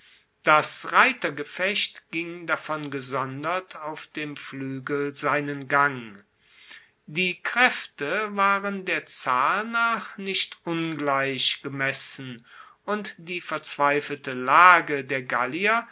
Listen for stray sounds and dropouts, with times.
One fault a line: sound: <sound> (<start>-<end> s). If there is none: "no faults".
no faults